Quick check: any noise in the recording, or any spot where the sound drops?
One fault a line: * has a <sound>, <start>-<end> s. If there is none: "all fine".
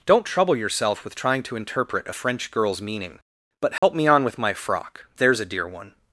* has a dropout, 3.8-3.8 s